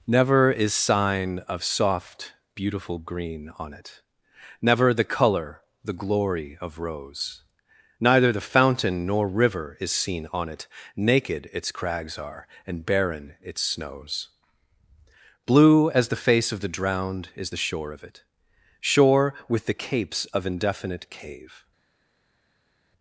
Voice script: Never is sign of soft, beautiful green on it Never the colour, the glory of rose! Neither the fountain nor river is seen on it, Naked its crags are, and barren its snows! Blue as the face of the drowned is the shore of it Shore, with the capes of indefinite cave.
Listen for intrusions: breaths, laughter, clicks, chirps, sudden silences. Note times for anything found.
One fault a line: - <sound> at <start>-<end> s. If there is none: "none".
none